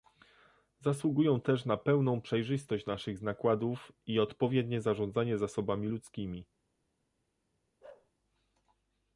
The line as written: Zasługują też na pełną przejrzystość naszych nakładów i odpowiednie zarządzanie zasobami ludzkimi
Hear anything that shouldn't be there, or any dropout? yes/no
yes